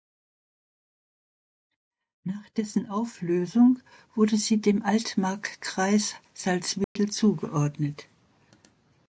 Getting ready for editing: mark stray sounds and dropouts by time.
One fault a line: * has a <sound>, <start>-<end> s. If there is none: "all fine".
* has a dropout, 6.8-7.0 s